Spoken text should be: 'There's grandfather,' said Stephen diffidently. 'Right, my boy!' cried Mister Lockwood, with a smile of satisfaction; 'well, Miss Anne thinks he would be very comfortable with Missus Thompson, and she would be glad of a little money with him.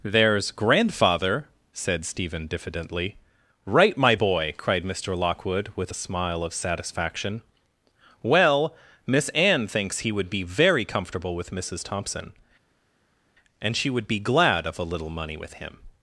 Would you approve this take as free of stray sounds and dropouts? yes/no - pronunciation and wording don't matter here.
yes